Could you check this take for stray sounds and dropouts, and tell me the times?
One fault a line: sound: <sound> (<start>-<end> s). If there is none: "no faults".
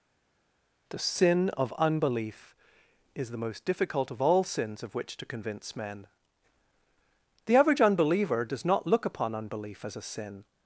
no faults